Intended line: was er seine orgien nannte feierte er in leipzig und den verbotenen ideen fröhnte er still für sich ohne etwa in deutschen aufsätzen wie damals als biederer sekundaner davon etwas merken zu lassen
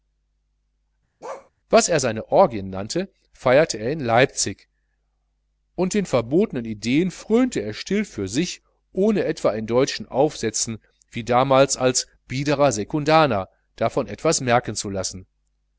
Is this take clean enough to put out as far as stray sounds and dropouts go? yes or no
no